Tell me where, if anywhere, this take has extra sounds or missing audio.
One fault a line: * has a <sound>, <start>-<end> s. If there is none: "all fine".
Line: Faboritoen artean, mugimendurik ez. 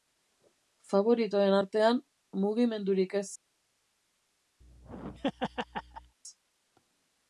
* has a laugh, 4.6-6.2 s